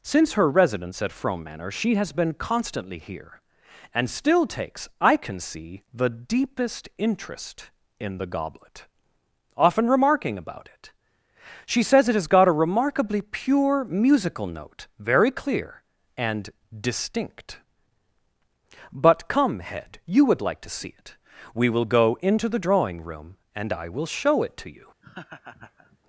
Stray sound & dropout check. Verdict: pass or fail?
fail